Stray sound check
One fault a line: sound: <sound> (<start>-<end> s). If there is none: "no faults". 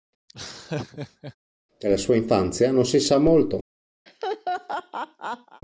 sound: laugh (0.3-1.4 s)
sound: laugh (4.1-5.6 s)